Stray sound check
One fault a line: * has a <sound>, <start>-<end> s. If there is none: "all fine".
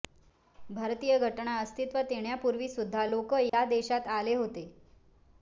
* has a dropout, 3.5-3.5 s